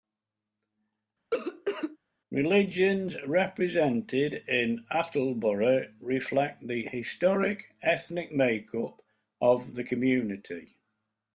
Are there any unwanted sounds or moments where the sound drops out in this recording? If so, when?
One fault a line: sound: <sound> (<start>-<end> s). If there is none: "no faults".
sound: cough (1.3-2.0 s)